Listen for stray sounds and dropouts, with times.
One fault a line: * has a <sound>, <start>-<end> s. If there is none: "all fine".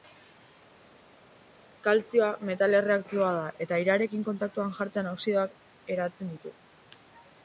all fine